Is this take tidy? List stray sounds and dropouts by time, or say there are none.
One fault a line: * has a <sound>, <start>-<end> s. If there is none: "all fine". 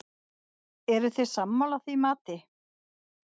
all fine